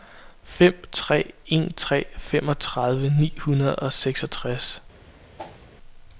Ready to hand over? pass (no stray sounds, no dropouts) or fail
fail